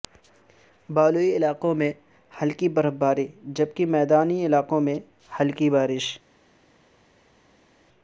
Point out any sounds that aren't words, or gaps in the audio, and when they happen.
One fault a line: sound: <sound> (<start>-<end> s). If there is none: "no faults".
no faults